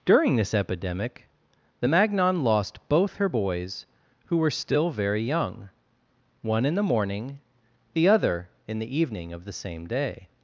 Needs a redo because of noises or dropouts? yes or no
no